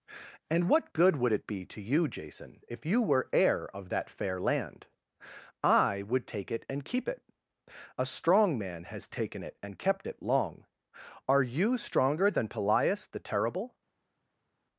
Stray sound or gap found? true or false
false